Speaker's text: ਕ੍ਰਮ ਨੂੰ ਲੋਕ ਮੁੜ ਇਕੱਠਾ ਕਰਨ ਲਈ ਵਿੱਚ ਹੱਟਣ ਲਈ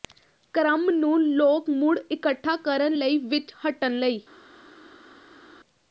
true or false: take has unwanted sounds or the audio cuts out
false